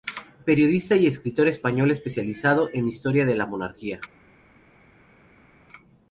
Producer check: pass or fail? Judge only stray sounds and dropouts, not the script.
pass